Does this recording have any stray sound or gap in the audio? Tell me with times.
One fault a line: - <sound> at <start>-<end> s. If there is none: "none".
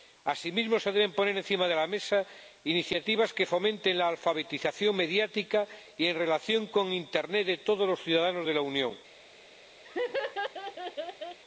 - laugh at 9.8-11.4 s